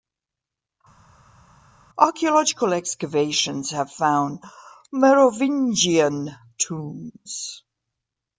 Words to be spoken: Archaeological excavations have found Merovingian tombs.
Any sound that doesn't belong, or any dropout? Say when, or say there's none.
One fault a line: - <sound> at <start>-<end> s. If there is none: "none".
none